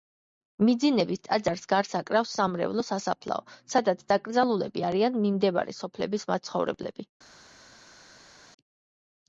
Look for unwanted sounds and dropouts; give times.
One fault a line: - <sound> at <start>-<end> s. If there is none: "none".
none